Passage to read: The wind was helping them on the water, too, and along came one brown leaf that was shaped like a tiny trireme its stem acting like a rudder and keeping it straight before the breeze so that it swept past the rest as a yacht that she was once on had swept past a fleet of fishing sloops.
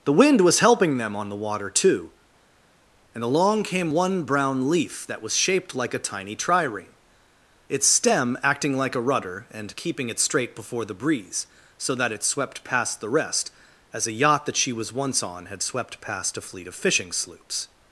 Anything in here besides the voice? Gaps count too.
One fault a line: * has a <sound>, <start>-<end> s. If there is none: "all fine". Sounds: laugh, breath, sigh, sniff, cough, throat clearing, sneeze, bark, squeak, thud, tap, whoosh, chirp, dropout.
all fine